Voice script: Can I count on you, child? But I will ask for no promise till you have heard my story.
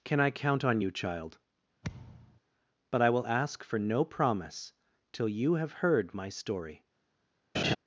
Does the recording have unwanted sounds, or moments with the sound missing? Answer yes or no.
yes